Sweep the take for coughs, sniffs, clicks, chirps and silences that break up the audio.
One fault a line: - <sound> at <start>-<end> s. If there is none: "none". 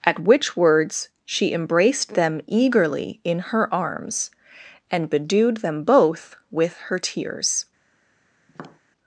- tap at 8.5-8.8 s